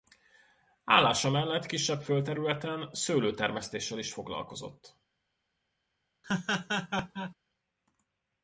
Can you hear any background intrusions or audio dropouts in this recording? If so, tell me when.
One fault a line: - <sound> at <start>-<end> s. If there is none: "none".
- laugh at 6.2-7.3 s